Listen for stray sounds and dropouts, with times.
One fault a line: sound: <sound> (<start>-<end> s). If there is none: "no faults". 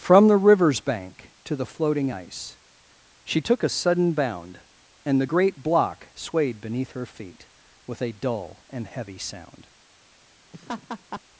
sound: laugh (10.5-11.2 s)